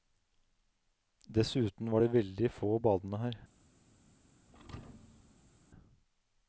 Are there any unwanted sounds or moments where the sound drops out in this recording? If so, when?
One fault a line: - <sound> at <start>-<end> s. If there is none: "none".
- thud at 4.5-5.6 s